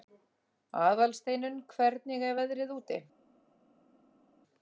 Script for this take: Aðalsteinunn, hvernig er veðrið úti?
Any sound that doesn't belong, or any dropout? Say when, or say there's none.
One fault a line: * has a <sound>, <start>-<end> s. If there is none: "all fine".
all fine